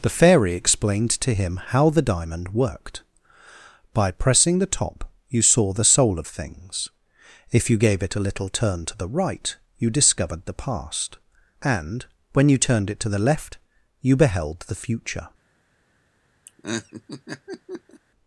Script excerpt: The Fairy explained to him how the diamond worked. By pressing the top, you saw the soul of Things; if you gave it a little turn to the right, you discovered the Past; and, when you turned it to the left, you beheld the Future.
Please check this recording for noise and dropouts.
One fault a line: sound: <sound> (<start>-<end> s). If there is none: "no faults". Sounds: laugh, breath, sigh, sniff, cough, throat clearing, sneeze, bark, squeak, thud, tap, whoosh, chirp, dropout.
sound: laugh (16.5-18.0 s)